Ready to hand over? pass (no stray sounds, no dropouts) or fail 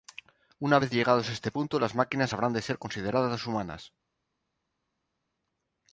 pass